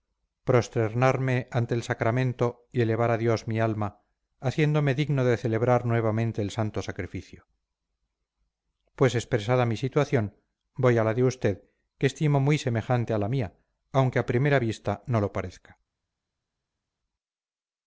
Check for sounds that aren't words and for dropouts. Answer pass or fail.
pass